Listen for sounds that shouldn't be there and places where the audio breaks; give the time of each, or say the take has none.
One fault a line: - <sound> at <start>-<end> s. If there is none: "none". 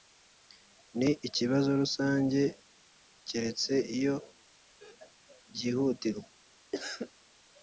- cough at 6.7-7.1 s